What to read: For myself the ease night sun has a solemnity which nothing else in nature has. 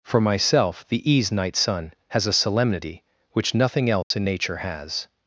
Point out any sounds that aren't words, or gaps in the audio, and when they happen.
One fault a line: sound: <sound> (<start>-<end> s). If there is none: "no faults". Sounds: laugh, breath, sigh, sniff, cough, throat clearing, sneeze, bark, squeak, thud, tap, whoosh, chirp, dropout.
sound: dropout (4.0-4.1 s)